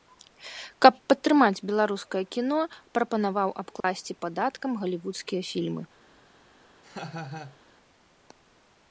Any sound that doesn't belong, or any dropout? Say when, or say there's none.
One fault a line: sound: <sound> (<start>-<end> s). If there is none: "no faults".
sound: dropout (3.8-3.8 s)
sound: laugh (6.8-7.6 s)